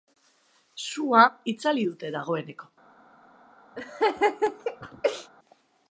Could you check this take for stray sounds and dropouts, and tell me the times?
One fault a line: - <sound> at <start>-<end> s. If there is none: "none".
- laugh at 3.8-5.3 s